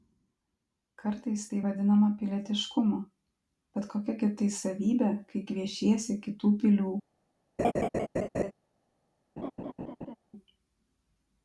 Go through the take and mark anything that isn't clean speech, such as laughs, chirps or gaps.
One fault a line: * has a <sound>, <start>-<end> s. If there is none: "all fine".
* has a laugh, 7.6-8.5 s
* has a laugh, 9.4-10.2 s